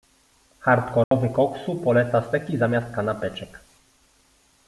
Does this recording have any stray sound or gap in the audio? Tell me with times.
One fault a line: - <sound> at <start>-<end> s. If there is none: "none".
- dropout at 1.0-1.1 s